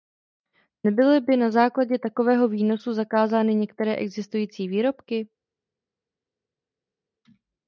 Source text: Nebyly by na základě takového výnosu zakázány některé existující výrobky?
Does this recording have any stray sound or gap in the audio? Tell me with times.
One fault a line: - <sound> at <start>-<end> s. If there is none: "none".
none